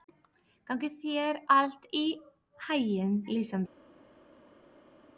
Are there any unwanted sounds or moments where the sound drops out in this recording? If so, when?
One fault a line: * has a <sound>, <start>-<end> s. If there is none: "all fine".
all fine